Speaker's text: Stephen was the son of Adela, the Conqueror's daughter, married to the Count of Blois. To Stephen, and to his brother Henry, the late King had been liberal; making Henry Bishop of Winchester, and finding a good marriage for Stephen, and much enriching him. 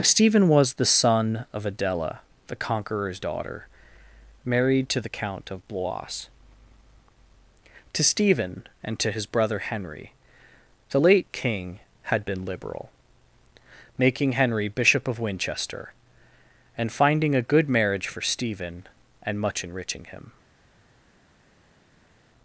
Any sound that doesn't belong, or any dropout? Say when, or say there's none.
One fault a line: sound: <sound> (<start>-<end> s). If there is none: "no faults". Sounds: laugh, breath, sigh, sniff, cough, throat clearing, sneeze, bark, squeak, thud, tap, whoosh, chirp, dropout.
no faults